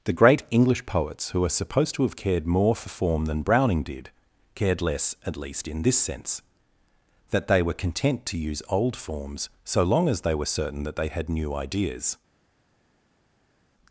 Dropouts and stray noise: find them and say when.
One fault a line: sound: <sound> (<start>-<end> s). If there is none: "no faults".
no faults